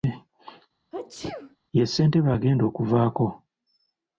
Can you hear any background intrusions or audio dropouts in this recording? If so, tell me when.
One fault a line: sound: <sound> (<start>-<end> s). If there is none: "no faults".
sound: sneeze (0.9-1.6 s)